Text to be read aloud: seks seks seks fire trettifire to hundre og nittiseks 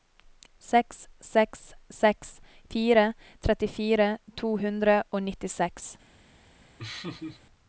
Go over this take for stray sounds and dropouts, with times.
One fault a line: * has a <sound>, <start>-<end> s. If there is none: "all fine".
* has a laugh, 6.8-7.4 s